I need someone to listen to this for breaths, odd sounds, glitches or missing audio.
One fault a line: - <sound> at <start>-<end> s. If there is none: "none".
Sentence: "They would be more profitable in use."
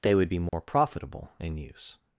- dropout at 0.5-0.5 s